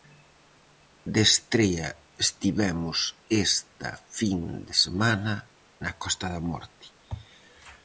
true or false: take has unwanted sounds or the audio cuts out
false